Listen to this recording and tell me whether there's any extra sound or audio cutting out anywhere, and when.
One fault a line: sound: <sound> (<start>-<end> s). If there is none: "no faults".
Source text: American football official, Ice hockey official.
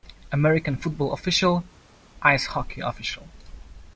no faults